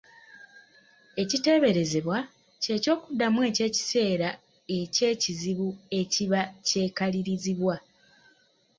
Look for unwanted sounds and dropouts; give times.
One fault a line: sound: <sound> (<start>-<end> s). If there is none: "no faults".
no faults